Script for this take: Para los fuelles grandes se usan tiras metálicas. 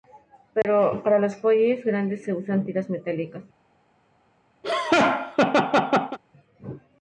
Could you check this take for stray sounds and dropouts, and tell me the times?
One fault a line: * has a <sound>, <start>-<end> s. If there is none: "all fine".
* has a dropout, 0.6-0.6 s
* has a laugh, 4.6-6.2 s